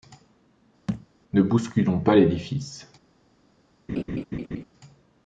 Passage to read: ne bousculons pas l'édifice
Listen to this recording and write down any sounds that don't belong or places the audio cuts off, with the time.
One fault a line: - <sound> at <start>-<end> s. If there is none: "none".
- thud at 0.9-1.1 s
- laugh at 3.9-4.6 s